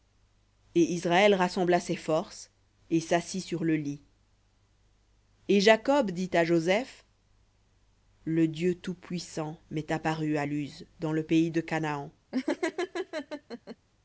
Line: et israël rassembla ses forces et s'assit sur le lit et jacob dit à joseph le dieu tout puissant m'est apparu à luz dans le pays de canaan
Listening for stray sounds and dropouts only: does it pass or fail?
fail